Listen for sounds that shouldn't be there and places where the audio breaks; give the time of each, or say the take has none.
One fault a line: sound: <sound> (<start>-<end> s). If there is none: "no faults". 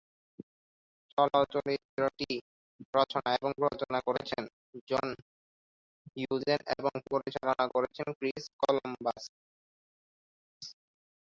no faults